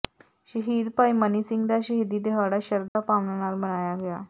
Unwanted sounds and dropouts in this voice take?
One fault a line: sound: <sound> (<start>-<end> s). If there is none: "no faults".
sound: dropout (2.9-3.0 s)